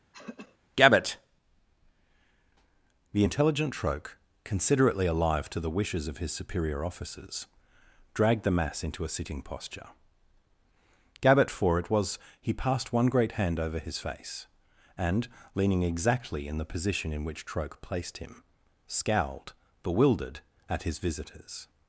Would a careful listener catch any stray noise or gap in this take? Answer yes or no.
yes